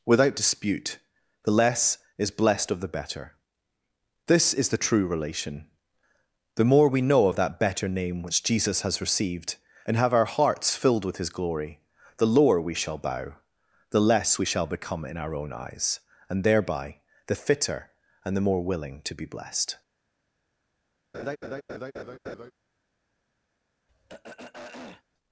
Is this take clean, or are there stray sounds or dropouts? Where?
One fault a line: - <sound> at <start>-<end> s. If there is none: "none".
- laugh at 21.1-22.5 s
- throat clearing at 23.9-25.0 s